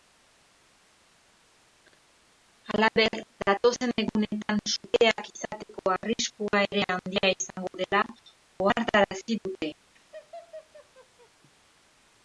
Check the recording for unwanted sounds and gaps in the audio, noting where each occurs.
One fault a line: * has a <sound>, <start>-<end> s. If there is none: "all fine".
* has a laugh, 10.0-11.3 s